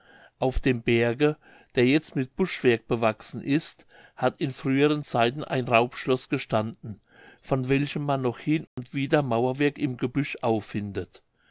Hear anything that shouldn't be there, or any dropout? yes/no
yes